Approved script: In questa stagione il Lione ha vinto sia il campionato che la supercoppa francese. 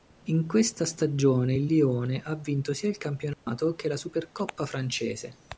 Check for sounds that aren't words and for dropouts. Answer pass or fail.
fail